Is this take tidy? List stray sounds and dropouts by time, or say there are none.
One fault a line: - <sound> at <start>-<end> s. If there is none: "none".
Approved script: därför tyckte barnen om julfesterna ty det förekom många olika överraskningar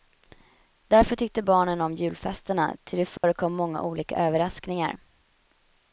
- dropout at 3.2-3.2 s